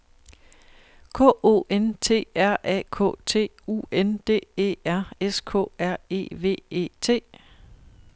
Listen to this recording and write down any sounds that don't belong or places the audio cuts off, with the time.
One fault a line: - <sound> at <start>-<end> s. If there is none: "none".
none